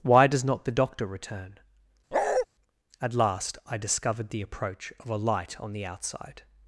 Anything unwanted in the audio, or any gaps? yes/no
yes